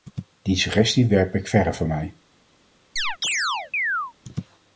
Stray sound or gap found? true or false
true